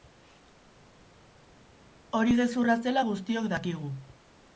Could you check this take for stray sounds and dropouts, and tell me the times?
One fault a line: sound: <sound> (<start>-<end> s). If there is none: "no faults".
no faults